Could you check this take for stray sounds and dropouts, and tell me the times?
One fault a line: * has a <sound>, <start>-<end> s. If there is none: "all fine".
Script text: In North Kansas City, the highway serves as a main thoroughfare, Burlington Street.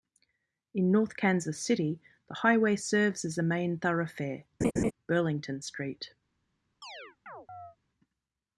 * has a laugh, 4.6-4.9 s
* has a chirp, 6.8-7.8 s